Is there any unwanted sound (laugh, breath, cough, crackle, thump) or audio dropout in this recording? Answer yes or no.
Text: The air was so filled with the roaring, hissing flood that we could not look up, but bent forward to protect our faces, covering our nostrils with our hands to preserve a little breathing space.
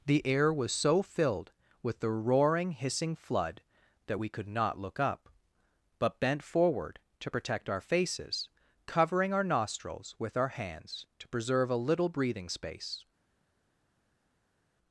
no